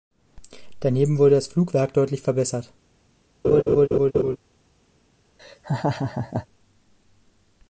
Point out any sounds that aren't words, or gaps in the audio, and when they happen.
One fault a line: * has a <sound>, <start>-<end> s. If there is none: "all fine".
* has a laugh, 3.4-4.4 s
* has a laugh, 5.4-6.5 s